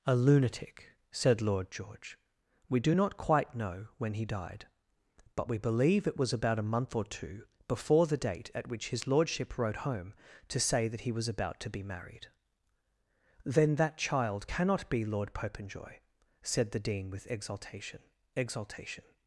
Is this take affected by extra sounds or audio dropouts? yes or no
no